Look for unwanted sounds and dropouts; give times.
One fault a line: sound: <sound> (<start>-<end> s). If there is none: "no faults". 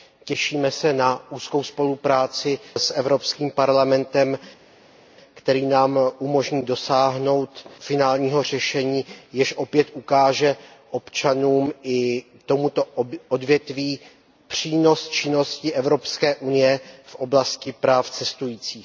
no faults